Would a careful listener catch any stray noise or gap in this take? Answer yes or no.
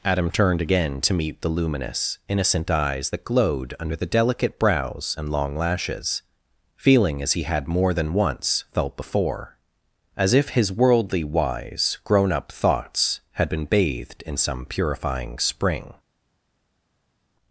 no